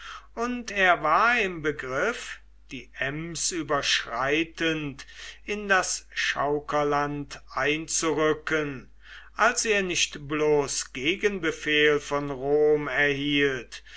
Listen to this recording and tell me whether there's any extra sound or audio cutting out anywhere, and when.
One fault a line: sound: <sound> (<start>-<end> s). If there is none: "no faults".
no faults